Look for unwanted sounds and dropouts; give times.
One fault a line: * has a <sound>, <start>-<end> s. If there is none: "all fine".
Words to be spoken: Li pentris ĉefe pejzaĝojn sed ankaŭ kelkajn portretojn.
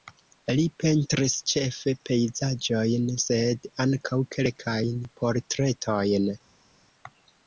all fine